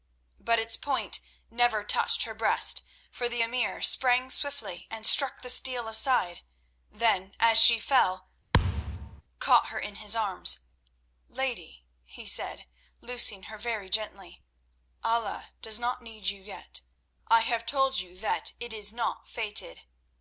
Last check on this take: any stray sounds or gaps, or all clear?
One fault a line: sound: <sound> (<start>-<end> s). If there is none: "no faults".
sound: thud (8.5-9.2 s)